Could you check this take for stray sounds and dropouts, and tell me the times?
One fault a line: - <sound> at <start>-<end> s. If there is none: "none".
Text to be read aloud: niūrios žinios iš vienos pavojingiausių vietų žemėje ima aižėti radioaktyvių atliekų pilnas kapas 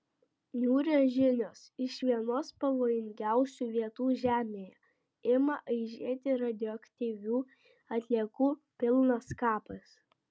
none